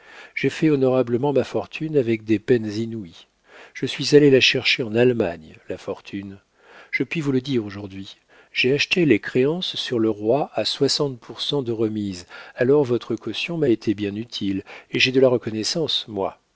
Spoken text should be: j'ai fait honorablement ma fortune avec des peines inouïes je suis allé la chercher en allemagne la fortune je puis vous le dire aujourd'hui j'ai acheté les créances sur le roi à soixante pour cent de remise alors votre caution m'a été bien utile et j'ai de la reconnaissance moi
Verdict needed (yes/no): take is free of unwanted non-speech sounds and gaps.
yes